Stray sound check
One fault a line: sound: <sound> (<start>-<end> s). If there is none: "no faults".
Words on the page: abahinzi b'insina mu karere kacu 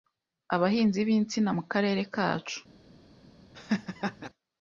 sound: laugh (3.5-4.3 s)